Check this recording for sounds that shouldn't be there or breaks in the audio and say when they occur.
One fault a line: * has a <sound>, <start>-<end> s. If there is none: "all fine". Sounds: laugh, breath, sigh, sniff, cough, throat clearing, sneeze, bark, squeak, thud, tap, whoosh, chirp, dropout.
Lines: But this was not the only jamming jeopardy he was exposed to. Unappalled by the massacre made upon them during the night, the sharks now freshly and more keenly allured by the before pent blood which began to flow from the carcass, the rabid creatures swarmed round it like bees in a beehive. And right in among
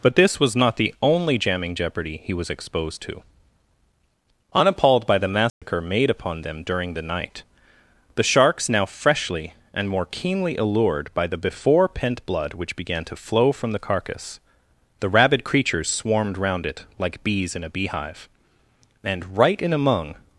* has a dropout, 5.5-5.6 s